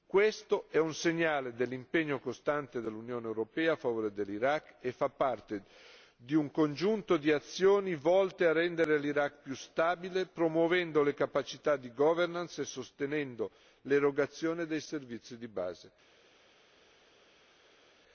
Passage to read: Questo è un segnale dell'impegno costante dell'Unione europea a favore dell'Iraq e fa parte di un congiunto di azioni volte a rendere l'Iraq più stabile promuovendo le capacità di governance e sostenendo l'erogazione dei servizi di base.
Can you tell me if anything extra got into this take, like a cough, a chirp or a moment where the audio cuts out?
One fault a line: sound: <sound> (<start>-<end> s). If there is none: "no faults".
no faults